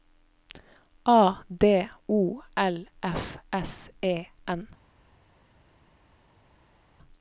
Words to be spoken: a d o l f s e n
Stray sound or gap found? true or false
false